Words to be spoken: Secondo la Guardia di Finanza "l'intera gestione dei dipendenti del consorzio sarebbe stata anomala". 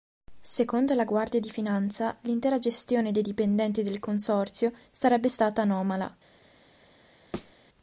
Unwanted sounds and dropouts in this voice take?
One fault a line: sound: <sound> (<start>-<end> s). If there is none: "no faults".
sound: thud (7.3-7.5 s)